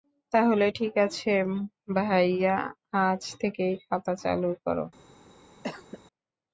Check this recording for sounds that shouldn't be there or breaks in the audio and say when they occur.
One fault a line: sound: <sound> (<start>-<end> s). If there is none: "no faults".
sound: cough (5.6-6.0 s)